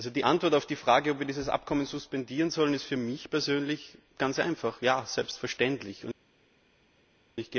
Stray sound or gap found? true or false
false